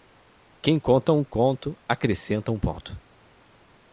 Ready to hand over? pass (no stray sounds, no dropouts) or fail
pass